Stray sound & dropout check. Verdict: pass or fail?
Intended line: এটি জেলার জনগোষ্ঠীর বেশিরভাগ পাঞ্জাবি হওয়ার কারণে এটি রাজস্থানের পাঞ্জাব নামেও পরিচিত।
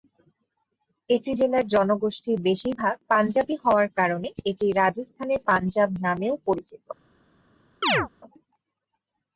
fail